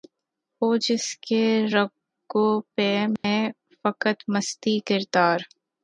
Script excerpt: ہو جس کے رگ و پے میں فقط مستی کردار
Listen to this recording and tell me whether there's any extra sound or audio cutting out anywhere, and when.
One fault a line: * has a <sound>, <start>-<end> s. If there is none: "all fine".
* has a dropout, 3.2-3.2 s